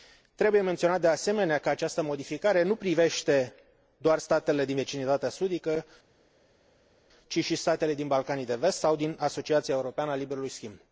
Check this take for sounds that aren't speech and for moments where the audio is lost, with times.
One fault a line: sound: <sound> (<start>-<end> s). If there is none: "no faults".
no faults